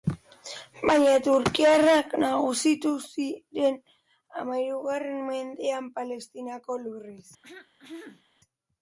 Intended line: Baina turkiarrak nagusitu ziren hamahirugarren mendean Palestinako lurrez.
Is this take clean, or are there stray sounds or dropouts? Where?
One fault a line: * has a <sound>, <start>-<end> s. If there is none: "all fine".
* has a throat clearing, 7.4-8.2 s